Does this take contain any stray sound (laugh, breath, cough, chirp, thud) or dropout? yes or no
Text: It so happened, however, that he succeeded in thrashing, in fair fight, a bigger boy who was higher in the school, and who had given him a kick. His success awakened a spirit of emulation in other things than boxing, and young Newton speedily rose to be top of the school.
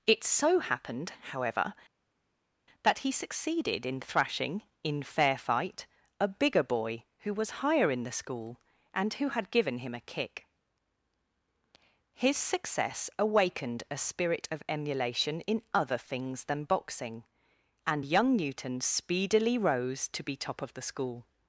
no